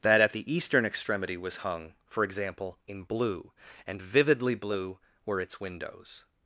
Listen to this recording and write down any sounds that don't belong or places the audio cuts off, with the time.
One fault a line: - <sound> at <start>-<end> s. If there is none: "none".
none